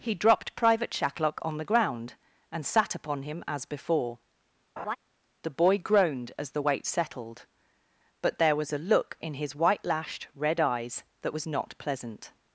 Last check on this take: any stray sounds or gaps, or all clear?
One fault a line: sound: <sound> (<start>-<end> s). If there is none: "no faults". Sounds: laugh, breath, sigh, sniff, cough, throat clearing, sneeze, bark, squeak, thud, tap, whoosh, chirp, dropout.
sound: laugh (4.8-5.0 s)